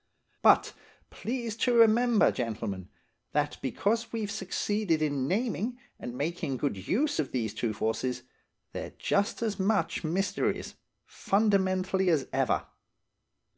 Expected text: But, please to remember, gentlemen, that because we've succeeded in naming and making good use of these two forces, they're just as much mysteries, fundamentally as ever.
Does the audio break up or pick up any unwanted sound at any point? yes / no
no